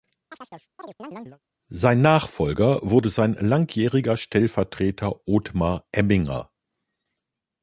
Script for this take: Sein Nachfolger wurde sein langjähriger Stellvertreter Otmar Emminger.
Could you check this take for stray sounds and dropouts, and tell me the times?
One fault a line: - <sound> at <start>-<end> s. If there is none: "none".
- chirp at 0.3-1.4 s